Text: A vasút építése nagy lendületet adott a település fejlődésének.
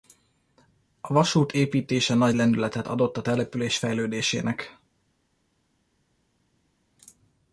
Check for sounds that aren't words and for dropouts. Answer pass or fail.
pass